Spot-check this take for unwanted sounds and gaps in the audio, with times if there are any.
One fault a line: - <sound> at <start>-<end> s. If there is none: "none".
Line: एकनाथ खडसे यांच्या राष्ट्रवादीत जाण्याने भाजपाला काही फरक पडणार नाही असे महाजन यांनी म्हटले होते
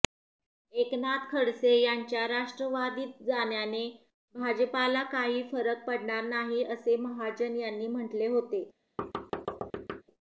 - thud at 9.0-10.0 s